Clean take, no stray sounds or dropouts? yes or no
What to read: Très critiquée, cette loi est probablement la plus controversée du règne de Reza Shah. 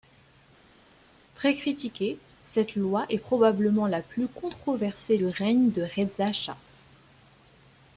yes